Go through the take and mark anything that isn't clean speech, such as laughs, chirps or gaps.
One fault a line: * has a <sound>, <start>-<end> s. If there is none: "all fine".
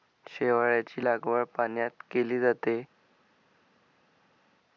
all fine